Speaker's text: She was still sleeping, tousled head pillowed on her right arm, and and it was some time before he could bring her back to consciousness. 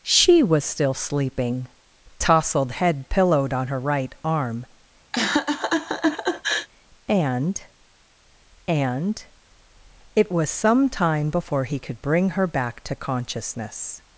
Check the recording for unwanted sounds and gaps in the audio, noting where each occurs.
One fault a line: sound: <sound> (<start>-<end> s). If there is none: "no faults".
sound: laugh (5.1-6.7 s)